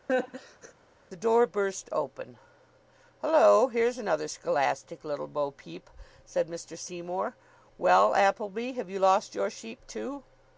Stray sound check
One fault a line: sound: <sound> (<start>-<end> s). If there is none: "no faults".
sound: laugh (0.1-0.7 s)